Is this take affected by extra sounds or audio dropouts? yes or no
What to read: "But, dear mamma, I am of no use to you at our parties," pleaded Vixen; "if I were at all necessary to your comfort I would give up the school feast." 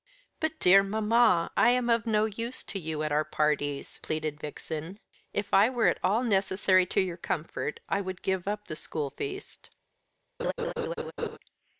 yes